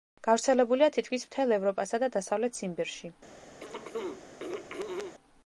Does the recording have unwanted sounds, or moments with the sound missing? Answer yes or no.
yes